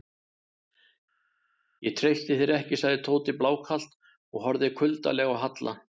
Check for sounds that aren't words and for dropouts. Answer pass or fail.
pass